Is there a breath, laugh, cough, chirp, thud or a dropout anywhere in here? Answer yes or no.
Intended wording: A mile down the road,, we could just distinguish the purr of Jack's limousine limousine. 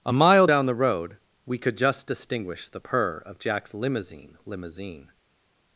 no